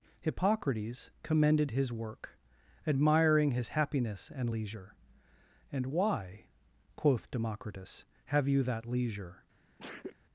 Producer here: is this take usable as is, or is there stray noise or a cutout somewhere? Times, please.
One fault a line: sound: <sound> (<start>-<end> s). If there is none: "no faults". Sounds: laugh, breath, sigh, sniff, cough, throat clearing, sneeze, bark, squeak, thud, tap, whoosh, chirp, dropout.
sound: sneeze (9.8-10.2 s)